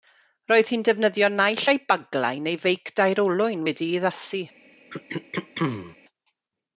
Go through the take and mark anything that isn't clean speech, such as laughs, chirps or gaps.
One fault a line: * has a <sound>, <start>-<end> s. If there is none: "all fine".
* has a throat clearing, 4.9-6.0 s